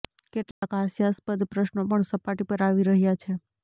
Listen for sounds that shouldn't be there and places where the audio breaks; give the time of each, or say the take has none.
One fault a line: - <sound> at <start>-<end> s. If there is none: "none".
- dropout at 0.5-0.6 s